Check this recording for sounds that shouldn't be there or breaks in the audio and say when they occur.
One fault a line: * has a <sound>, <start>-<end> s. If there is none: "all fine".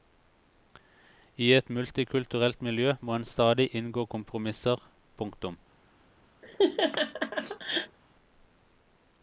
* has a laugh, 6.4-8.0 s